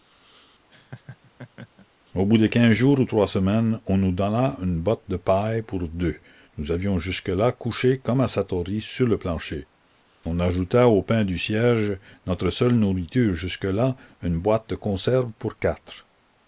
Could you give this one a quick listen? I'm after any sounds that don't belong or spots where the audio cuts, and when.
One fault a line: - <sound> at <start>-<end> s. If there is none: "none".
- laugh at 0.7-1.9 s